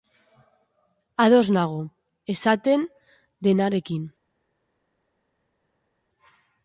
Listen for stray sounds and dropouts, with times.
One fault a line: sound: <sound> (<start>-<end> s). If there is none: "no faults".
no faults